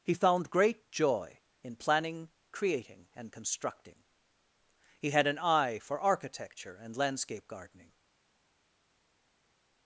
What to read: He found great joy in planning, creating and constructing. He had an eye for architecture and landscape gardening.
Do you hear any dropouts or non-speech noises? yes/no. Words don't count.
no